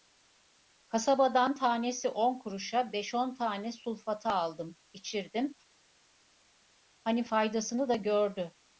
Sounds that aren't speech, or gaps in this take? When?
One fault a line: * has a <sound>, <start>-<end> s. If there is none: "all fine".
all fine